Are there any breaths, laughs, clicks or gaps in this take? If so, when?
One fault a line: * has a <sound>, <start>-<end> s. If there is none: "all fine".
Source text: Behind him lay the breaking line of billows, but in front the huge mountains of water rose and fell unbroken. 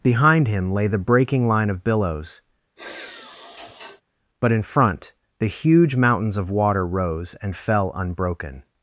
* has a sigh, 2.8-4.0 s